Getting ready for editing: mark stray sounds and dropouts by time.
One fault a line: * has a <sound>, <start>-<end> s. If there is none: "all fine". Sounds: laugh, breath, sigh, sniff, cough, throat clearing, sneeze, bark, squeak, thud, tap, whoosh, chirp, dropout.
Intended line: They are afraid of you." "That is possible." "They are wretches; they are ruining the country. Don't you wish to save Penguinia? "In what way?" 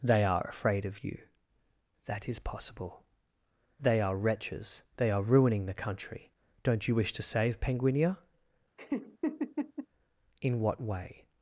* has a laugh, 8.8-9.9 s